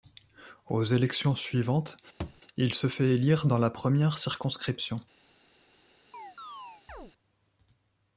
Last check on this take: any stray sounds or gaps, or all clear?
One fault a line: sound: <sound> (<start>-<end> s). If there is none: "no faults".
sound: thud (2.2-2.4 s)
sound: chirp (6.1-7.1 s)